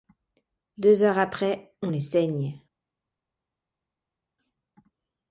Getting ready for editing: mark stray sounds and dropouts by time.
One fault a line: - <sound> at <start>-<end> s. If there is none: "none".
none